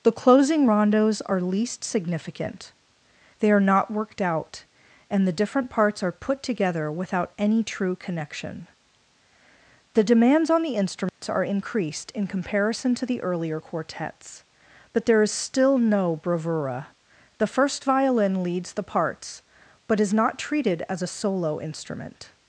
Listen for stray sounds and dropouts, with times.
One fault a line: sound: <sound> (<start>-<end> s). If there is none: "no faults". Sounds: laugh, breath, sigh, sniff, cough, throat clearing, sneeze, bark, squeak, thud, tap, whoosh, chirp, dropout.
sound: dropout (11.1-11.2 s)